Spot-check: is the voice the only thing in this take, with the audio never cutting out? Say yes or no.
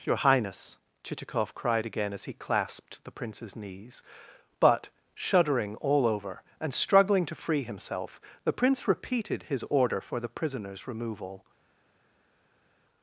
yes